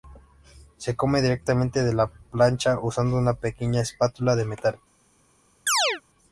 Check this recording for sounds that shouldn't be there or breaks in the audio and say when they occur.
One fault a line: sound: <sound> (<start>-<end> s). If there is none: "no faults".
sound: chirp (5.7-6.0 s)